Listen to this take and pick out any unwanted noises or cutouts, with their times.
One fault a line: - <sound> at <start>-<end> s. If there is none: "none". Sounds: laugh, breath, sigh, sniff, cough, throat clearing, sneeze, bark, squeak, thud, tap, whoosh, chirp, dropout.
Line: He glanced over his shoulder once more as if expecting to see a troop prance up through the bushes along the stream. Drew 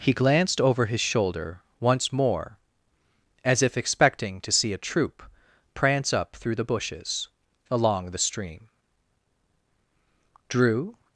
none